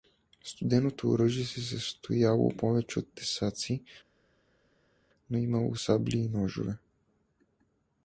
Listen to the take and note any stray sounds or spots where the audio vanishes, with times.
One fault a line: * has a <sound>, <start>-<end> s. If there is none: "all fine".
all fine